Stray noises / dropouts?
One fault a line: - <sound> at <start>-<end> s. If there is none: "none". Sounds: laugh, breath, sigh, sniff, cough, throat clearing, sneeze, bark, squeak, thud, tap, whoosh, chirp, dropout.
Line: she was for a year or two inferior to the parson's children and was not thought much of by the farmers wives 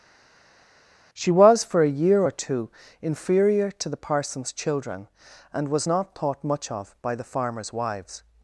none